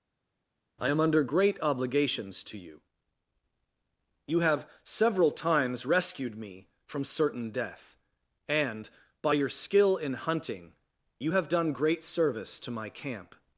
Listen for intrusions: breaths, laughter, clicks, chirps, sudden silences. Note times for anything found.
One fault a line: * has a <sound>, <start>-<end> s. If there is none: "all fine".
all fine